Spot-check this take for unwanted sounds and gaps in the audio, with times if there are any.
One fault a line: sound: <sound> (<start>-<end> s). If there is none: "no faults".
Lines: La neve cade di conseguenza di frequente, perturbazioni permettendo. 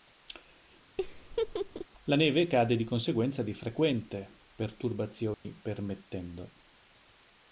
sound: laugh (1.0-1.9 s)
sound: dropout (5.3-5.4 s)